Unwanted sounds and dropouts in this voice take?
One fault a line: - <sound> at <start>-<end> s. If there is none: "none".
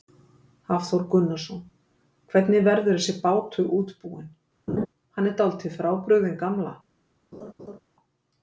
- laugh at 4.7-4.9 s
- laugh at 7.3-7.8 s